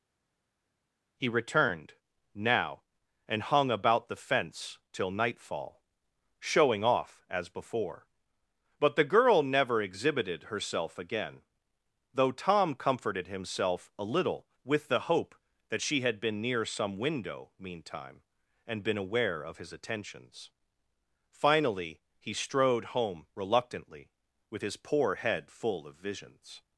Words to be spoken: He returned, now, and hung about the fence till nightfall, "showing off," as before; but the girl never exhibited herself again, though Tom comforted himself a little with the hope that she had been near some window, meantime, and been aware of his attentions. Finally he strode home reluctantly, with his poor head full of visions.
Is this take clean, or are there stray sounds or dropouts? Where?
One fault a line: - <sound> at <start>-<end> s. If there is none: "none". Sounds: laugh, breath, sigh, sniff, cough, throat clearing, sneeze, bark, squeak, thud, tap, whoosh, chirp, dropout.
none